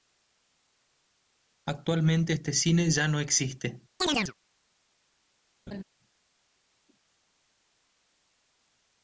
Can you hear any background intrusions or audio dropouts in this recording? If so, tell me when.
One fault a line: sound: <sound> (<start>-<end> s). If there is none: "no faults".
sound: chirp (4.0-4.3 s)
sound: laugh (5.7-5.8 s)